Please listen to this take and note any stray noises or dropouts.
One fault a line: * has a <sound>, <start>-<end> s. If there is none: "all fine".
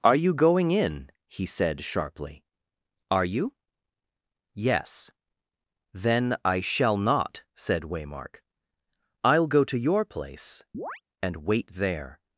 * has a chirp, 10.7-11.0 s